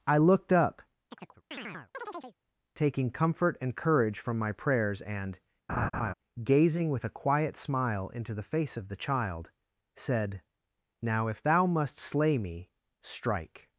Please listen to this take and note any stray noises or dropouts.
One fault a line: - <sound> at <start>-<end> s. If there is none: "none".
- chirp at 1.1-2.4 s
- laugh at 5.7-6.1 s